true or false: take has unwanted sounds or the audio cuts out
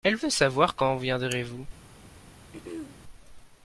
true